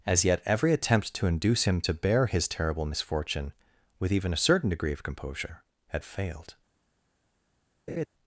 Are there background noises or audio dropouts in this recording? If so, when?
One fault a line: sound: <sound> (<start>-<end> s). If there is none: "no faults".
sound: laugh (7.9-8.1 s)